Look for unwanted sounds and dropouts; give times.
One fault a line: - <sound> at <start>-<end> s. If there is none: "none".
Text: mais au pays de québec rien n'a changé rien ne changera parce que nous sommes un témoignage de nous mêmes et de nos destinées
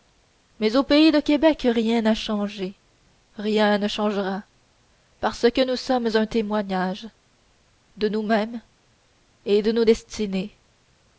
none